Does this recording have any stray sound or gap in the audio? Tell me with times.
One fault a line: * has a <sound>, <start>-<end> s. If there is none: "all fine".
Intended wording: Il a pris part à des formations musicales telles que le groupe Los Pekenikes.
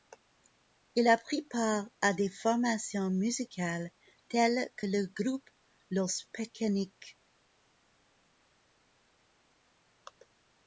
all fine